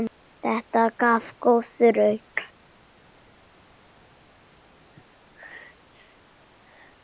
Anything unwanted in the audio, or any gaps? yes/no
no